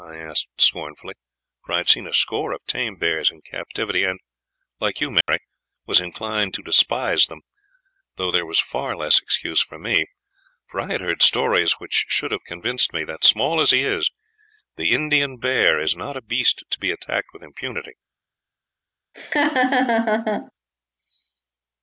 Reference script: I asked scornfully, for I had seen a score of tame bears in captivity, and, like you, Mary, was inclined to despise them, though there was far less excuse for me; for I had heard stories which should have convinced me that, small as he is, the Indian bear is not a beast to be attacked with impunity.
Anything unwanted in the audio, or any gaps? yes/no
yes